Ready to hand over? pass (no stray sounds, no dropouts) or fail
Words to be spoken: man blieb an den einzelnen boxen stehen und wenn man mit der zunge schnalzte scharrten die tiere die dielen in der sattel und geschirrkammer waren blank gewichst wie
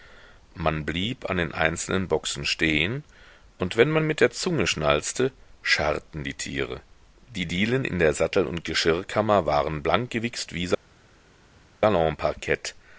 pass